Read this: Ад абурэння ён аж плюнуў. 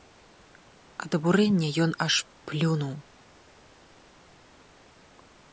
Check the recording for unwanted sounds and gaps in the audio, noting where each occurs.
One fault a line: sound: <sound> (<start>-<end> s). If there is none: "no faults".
no faults